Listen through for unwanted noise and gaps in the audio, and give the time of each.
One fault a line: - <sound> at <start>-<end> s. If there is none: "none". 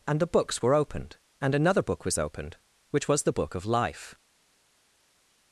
none